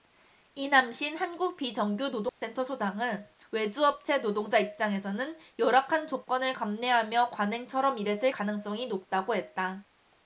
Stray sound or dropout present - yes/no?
yes